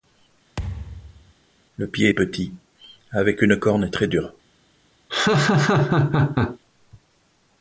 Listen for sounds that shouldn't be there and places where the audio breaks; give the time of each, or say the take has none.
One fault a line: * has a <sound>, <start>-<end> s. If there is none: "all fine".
* has a thud, 0.6-1.3 s
* has a laugh, 5.1-6.6 s